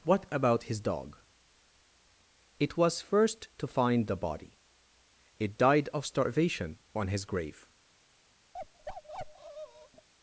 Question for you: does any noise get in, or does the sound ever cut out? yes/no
yes